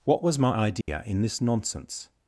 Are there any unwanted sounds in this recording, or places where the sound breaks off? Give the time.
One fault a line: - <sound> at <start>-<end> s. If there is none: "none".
- dropout at 0.8-0.9 s